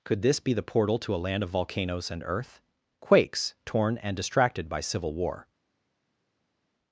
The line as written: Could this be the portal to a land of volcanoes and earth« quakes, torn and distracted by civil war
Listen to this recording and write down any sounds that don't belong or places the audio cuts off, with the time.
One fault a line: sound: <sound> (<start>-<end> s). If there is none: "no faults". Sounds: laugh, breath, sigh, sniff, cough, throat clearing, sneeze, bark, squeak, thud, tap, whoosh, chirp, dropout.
no faults